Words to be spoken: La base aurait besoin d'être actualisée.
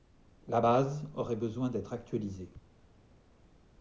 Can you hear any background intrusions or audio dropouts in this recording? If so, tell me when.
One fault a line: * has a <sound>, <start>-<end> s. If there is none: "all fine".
all fine